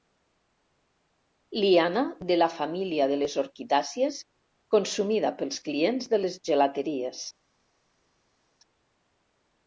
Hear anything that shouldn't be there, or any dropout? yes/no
no